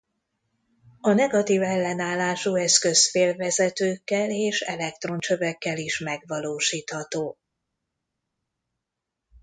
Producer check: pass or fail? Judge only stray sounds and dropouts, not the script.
pass